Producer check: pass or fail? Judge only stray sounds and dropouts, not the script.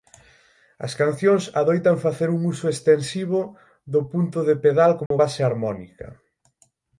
fail